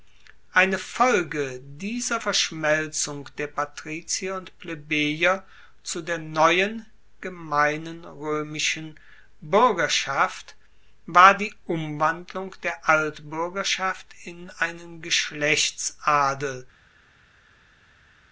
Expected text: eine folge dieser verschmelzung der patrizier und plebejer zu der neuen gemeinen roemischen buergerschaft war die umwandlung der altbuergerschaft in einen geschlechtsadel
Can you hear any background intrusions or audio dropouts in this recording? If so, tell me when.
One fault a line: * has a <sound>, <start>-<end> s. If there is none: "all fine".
all fine